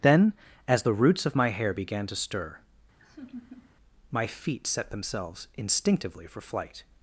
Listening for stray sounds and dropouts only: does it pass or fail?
fail